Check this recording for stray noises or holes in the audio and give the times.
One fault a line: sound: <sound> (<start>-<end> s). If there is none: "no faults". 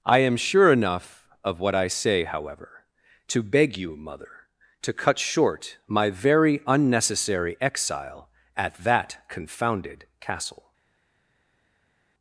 no faults